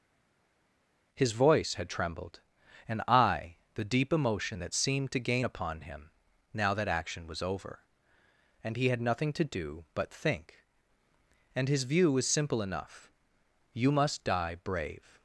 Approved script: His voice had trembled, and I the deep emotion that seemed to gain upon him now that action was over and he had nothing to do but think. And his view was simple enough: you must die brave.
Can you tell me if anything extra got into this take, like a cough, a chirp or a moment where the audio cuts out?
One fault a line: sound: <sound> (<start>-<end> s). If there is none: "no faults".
no faults